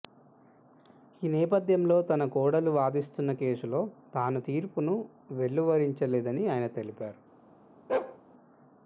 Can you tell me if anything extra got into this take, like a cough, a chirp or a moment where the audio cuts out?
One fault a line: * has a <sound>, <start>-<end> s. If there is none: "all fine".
* has a bark, 7.9-8.2 s